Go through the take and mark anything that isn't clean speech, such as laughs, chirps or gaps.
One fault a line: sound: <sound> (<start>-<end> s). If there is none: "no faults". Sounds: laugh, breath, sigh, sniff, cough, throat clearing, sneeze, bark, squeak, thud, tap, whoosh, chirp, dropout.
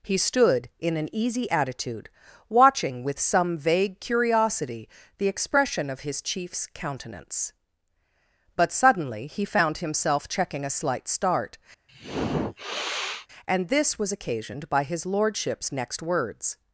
sound: sniff (11.9-13.3 s)